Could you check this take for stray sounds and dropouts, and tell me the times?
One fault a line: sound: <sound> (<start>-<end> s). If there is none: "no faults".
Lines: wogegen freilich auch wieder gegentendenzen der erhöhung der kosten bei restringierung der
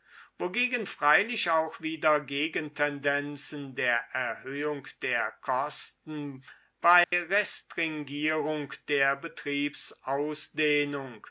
sound: dropout (7.0-7.1 s)